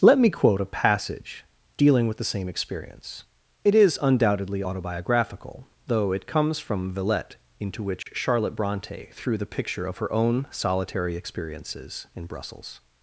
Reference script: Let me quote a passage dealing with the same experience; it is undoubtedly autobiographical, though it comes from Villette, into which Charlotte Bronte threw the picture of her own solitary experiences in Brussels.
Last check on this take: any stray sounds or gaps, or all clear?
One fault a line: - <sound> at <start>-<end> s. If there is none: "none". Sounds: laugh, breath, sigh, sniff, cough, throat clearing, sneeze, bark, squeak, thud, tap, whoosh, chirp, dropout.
- dropout at 8.0-8.1 s